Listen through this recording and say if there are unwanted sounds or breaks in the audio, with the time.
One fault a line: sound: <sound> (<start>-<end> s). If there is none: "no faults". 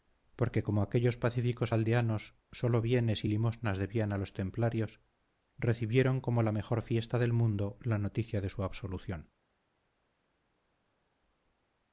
no faults